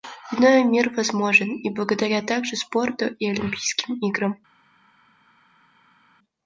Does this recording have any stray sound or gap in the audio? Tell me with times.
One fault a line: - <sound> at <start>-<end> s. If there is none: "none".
none